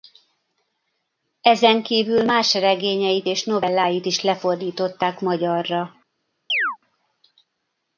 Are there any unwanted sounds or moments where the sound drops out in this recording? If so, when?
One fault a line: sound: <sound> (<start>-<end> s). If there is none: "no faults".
sound: chirp (6.5-6.8 s)